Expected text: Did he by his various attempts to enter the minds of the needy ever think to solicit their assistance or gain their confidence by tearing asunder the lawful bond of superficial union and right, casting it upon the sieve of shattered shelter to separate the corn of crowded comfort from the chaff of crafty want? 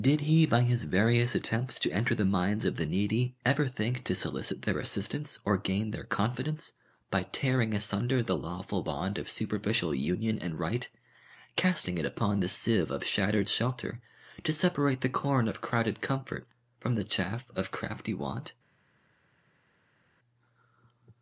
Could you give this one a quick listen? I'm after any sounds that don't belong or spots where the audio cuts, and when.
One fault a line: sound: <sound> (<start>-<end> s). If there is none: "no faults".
no faults